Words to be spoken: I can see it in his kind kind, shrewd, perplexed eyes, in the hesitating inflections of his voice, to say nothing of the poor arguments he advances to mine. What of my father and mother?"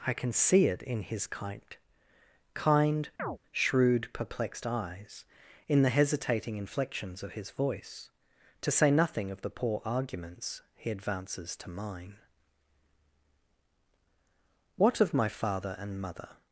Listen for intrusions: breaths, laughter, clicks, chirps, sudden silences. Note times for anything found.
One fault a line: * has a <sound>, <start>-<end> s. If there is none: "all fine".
* has a chirp, 3.2-3.4 s